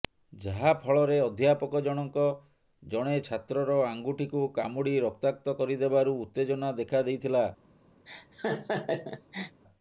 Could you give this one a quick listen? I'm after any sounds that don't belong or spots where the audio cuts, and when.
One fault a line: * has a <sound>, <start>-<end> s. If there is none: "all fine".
* has a laugh, 8.1-9.6 s